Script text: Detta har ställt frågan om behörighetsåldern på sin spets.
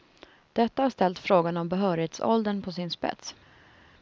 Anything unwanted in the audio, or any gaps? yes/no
no